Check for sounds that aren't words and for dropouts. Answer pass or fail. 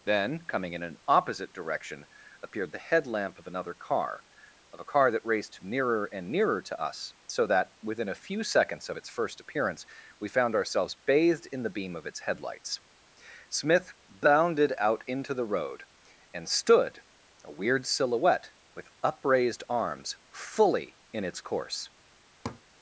fail